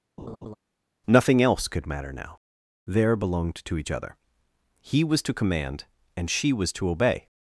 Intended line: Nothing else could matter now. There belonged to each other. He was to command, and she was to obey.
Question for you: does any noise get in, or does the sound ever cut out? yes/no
yes